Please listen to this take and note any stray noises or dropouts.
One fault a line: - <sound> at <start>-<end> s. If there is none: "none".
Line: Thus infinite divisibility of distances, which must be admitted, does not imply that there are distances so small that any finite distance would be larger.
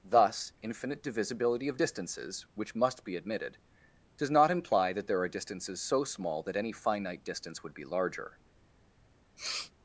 - sniff at 9.4-9.7 s